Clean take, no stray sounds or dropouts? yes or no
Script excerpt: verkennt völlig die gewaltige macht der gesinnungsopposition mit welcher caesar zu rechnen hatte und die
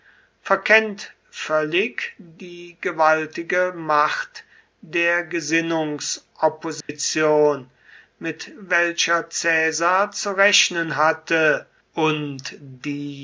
no